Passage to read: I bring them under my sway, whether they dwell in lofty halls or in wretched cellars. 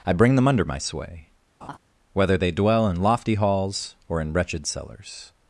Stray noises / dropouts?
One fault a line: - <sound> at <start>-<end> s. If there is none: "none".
- laugh at 1.6-1.8 s